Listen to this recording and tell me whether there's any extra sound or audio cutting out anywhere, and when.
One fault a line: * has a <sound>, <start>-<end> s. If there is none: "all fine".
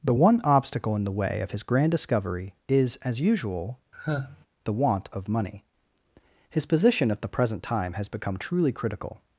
* has a sigh, 3.9-4.5 s